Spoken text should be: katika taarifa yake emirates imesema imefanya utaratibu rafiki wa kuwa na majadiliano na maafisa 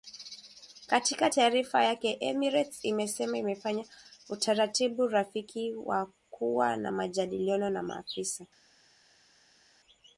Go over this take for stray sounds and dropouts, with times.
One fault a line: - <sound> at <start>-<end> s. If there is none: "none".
none